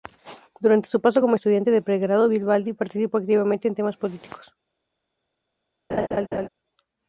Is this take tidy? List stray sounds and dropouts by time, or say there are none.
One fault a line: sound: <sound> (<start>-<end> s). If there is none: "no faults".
sound: laugh (5.9-6.5 s)